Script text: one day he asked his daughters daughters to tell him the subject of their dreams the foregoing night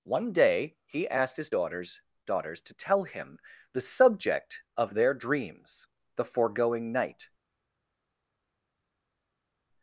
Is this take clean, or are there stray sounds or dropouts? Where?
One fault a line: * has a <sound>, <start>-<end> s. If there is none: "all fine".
all fine